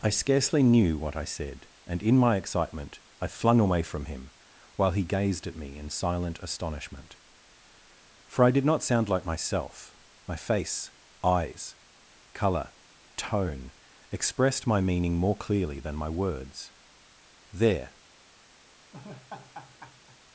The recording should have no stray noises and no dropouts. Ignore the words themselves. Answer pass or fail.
fail